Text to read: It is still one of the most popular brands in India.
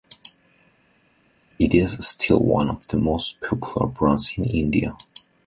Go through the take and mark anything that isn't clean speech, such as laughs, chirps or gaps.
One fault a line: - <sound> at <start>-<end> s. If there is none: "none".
none